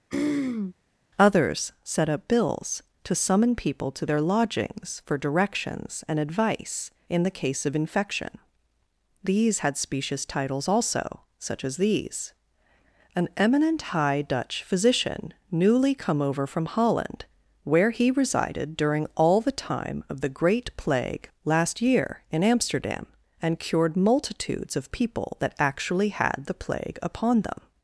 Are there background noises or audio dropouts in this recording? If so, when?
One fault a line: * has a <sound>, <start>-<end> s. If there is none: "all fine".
* has a throat clearing, 0.1-0.7 s